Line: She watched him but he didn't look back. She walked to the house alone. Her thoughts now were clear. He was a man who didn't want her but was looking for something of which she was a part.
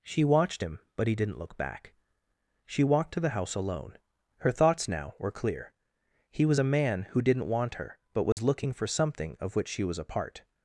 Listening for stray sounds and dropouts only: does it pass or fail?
fail